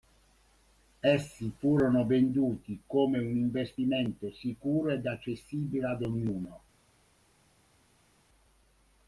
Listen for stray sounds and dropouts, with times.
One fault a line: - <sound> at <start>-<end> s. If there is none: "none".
none